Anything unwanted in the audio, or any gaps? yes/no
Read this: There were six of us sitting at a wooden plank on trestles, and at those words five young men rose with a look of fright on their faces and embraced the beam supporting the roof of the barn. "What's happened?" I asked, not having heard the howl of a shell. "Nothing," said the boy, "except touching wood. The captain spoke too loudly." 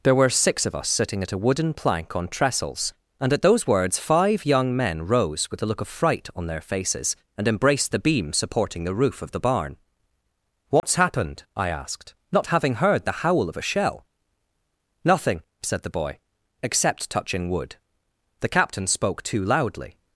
yes